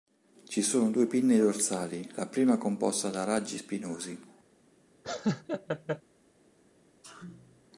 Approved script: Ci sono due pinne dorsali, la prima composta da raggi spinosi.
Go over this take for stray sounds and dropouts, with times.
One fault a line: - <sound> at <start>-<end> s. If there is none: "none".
- laugh at 5.0-6.0 s
- sneeze at 7.0-7.7 s